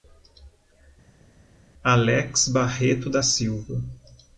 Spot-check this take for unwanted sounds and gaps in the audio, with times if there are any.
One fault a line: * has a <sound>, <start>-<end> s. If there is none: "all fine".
all fine